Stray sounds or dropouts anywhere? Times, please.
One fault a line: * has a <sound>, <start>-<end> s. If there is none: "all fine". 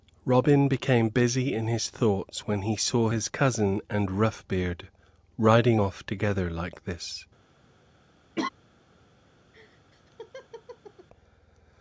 * has a laugh, 8.4-8.5 s
* has a laugh, 9.5-11.1 s